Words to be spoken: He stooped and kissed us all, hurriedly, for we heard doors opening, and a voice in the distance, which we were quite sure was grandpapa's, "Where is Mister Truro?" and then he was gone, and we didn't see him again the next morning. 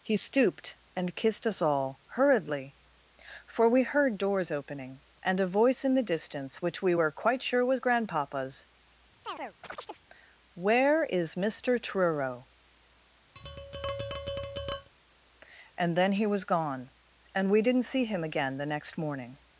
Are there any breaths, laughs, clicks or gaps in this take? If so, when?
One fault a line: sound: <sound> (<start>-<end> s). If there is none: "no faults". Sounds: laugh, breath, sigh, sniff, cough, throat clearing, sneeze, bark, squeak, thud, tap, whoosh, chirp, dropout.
sound: chirp (9.2-10.1 s)
sound: tap (13.3-14.9 s)